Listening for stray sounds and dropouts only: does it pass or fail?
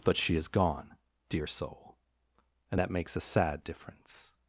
pass